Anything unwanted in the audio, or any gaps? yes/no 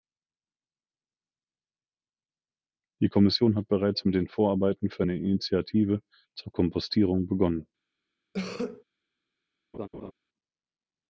yes